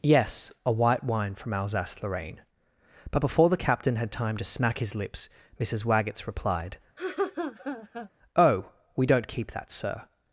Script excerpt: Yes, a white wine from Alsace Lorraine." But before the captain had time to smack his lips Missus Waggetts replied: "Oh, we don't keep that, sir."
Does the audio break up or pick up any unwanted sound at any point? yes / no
yes